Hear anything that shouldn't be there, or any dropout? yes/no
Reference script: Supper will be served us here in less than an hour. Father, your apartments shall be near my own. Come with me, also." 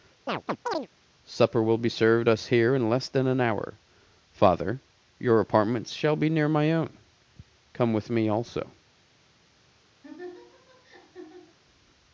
yes